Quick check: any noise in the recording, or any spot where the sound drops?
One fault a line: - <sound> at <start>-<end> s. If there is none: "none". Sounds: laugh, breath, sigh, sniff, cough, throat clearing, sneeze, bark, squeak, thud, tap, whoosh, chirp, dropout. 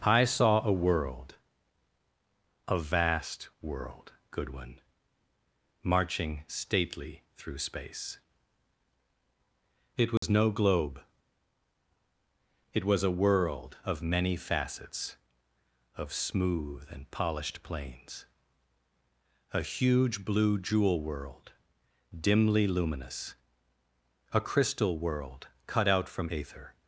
- dropout at 10.2-10.2 s